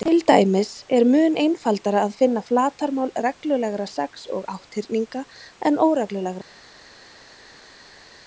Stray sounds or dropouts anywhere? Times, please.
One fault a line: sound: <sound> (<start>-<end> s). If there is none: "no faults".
no faults